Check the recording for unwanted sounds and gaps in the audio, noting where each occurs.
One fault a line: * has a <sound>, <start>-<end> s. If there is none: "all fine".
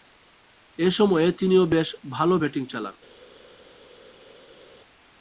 all fine